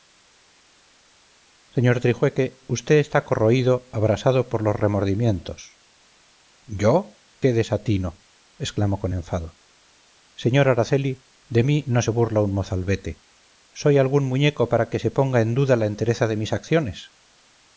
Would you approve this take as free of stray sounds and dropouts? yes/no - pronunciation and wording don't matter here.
yes